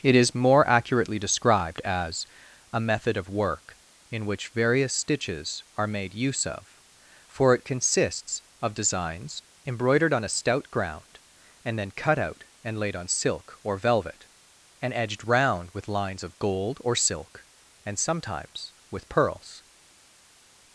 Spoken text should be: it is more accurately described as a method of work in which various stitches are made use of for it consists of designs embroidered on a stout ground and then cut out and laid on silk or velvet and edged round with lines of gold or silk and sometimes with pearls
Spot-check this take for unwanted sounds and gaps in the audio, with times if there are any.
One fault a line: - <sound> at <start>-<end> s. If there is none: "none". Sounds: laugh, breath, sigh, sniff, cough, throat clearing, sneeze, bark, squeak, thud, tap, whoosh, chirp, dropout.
none